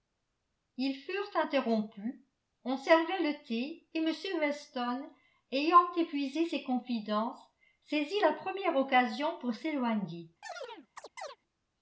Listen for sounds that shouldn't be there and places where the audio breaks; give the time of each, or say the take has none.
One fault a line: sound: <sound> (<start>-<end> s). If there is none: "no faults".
sound: chirp (10.4-11.4 s)